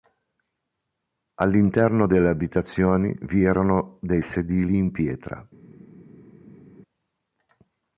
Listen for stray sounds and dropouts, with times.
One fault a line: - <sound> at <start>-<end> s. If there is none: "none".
none